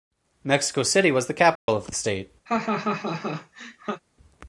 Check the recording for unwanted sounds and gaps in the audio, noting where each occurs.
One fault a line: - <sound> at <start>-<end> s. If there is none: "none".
- dropout at 1.6-1.7 s
- laugh at 2.5-4.0 s